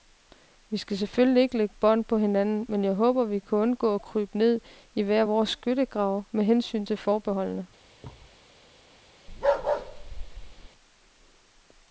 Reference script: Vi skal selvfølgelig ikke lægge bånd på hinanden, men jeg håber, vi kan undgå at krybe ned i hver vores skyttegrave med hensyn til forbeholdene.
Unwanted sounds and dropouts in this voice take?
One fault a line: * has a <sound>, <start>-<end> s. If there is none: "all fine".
* has a thud, 8.0-8.4 s
* has a bark, 9.3-10.7 s